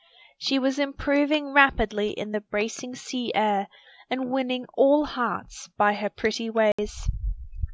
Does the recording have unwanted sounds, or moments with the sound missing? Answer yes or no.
yes